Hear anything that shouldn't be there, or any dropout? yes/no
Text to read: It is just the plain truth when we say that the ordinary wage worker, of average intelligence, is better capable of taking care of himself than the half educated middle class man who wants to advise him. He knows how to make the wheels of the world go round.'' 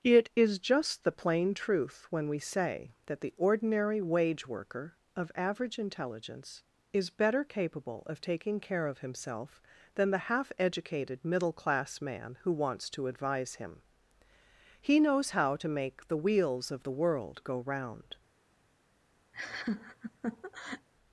yes